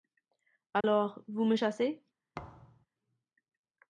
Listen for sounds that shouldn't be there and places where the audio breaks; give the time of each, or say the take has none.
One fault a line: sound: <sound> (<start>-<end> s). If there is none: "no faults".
sound: dropout (0.8-0.8 s)
sound: thud (2.3-2.9 s)